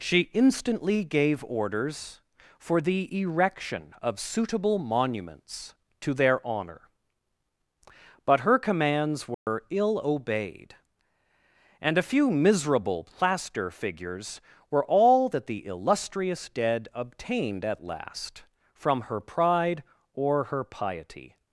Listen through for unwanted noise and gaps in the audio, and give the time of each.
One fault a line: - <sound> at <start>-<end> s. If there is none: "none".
- dropout at 9.3-9.5 s